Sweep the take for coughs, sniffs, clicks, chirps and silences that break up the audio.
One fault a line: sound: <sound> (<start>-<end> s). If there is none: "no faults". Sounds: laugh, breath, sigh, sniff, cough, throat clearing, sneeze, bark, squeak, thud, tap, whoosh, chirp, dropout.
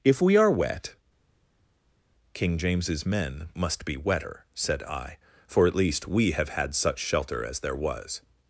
no faults